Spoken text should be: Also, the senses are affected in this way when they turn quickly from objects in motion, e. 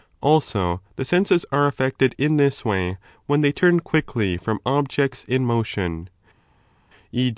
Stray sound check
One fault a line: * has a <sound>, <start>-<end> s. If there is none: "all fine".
all fine